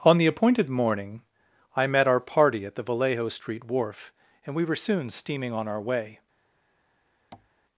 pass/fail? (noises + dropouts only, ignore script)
fail